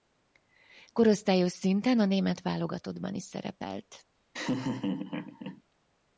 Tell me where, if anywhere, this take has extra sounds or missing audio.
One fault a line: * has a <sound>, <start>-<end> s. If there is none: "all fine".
* has a laugh, 4.3-5.6 s